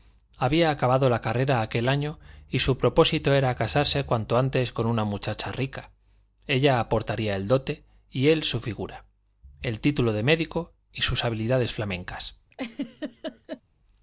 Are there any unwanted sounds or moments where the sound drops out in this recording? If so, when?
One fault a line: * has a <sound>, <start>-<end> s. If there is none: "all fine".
* has a laugh, 12.5-13.6 s